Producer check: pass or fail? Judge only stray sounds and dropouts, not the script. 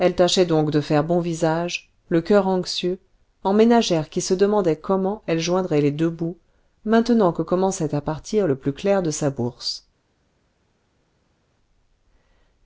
pass